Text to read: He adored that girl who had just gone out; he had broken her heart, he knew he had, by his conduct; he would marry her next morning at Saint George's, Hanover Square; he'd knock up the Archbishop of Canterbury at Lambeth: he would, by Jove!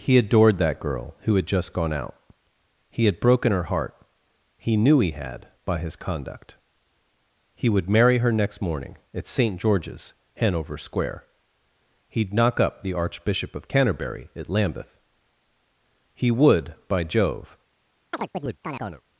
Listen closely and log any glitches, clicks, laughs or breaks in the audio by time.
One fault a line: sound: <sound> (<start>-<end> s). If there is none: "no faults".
sound: chirp (18.1-19.0 s)